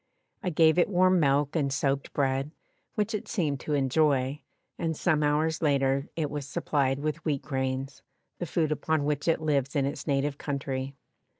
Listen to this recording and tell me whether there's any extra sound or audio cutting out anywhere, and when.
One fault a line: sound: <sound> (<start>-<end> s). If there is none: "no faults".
no faults